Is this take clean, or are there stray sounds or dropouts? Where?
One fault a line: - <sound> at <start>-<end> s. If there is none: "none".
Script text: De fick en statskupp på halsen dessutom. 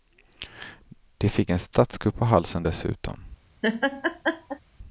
- laugh at 3.6-4.6 s